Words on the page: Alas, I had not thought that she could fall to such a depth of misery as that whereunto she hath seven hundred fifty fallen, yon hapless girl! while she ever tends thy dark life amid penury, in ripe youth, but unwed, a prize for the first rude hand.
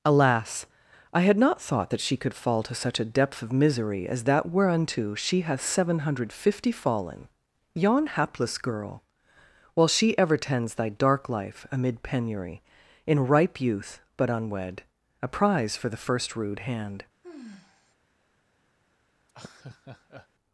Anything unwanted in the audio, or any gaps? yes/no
yes